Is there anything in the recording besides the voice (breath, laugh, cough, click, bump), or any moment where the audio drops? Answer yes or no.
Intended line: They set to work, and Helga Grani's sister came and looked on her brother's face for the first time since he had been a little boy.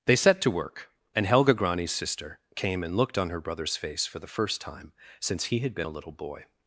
no